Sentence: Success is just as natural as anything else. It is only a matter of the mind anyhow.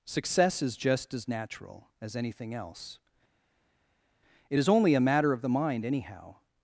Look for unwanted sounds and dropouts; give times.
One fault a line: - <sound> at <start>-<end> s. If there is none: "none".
none